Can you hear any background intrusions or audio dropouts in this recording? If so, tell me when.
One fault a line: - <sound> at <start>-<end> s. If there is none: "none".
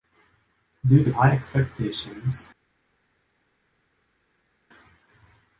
none